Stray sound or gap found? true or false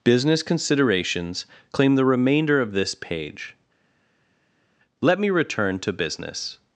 false